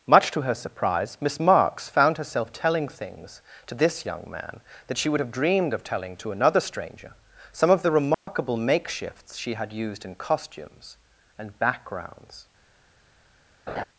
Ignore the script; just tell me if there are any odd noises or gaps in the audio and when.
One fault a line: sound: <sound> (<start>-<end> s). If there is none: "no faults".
sound: dropout (8.1-8.3 s)
sound: laugh (13.7-13.8 s)